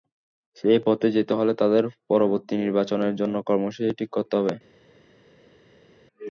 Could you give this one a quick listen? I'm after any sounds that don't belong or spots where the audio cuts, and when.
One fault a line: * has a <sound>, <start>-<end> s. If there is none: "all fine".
all fine